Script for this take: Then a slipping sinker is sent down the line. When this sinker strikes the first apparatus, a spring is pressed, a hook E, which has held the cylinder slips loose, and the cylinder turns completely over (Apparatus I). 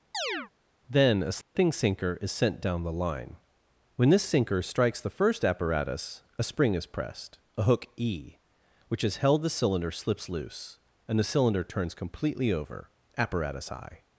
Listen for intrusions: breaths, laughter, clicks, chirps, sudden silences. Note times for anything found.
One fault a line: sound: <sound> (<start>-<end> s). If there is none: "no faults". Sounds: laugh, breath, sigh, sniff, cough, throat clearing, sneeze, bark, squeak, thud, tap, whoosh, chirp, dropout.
sound: chirp (0.1-0.5 s)
sound: dropout (1.4-1.6 s)